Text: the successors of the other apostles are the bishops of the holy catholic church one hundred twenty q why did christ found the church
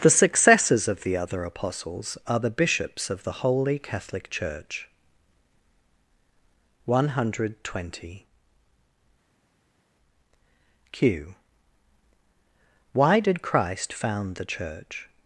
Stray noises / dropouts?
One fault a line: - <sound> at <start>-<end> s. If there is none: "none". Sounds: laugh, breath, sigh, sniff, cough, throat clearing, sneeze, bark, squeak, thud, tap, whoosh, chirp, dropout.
none